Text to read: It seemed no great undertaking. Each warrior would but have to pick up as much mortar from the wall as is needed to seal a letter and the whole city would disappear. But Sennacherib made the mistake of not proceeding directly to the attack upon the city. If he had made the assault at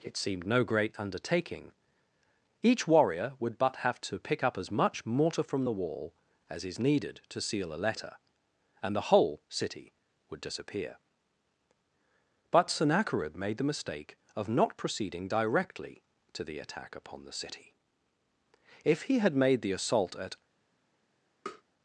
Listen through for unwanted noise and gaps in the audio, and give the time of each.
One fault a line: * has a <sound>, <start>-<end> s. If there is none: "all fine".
* has a tap, 21.5-21.6 s